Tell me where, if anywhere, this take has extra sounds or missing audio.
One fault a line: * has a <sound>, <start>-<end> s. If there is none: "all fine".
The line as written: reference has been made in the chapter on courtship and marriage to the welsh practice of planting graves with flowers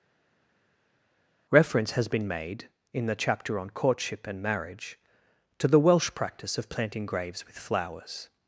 all fine